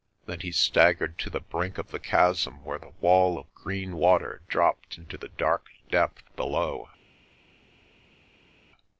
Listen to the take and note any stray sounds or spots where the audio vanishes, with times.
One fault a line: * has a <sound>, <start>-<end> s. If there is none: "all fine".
all fine